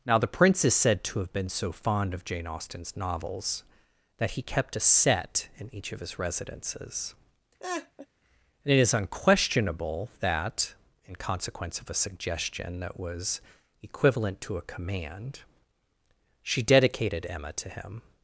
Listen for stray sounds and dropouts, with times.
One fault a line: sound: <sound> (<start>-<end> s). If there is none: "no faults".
sound: laugh (7.6-8.1 s)